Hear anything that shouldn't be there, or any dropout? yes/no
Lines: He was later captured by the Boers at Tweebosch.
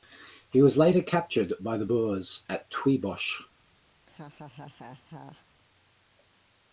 yes